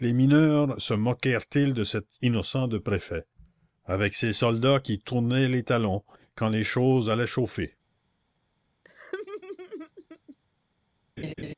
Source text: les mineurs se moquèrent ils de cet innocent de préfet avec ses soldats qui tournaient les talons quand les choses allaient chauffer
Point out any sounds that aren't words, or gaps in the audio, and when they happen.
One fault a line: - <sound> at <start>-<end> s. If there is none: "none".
- laugh at 8.8-10.4 s
- laugh at 11.2-11.5 s